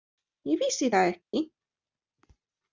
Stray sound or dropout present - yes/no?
yes